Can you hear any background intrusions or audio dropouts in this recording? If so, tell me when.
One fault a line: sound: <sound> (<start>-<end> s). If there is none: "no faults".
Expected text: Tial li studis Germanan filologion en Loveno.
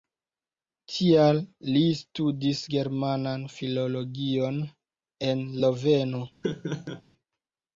sound: laugh (6.4-7.0 s)